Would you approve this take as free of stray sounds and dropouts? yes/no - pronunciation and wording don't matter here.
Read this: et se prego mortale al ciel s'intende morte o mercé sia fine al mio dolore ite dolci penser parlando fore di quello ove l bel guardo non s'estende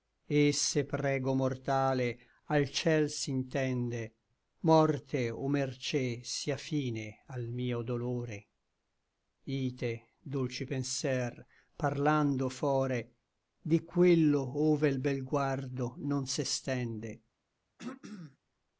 no